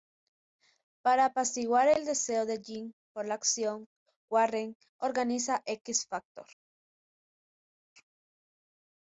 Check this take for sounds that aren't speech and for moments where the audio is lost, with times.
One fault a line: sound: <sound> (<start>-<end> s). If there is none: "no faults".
no faults